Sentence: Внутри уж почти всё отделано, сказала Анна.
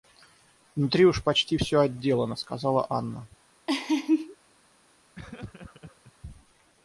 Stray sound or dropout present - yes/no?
yes